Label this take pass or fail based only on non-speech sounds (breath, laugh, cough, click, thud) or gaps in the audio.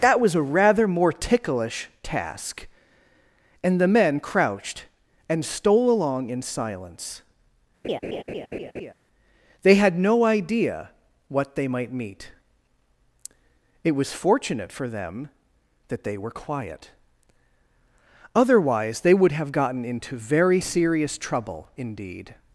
fail